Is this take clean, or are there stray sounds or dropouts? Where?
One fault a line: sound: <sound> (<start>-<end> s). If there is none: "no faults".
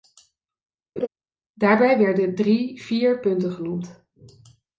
sound: laugh (1.0-1.1 s)